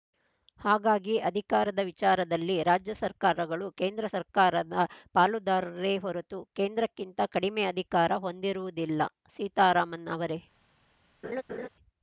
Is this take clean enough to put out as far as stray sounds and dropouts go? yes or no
no